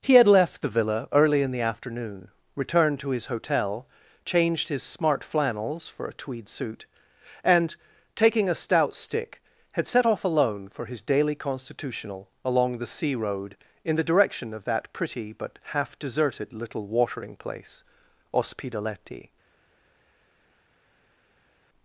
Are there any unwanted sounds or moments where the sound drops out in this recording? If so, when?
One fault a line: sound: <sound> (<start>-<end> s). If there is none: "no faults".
no faults